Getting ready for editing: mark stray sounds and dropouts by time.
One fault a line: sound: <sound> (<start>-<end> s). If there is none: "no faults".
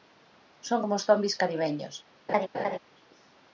sound: laugh (2.3-2.8 s)